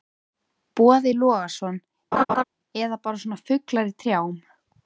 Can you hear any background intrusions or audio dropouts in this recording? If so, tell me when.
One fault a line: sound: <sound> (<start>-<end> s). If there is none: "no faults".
sound: laugh (2.1-2.4 s)